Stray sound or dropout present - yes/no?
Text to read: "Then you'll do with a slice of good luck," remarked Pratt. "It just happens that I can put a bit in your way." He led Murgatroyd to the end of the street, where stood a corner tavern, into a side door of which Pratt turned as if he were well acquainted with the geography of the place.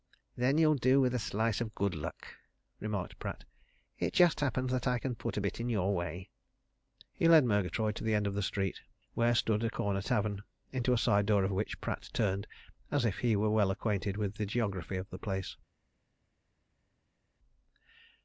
no